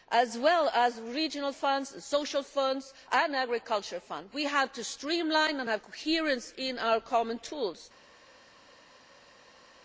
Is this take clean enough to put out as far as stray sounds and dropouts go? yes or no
yes